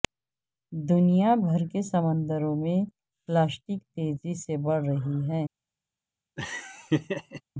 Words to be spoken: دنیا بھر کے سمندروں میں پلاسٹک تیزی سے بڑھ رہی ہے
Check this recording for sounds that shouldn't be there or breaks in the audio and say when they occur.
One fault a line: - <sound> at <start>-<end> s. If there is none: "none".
- laugh at 6.4-7.4 s